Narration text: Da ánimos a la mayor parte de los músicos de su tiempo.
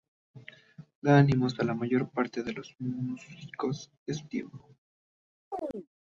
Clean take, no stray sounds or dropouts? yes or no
no